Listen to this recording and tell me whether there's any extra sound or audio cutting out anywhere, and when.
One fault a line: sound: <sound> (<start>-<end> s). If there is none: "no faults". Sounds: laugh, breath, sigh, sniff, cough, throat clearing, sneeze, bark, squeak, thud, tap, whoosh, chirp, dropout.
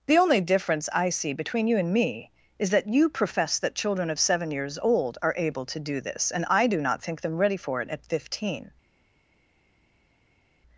no faults